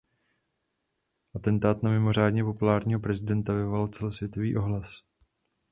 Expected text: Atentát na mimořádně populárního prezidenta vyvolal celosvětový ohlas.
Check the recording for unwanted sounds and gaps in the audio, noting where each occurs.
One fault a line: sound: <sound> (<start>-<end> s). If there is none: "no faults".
no faults